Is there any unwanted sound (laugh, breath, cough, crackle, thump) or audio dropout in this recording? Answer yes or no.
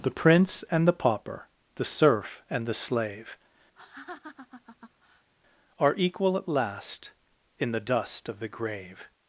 yes